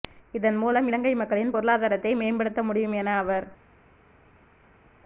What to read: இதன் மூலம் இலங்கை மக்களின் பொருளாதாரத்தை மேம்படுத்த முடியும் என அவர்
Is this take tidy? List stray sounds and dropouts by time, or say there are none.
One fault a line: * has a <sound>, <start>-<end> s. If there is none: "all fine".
all fine